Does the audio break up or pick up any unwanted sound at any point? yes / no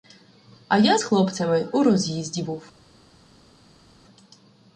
no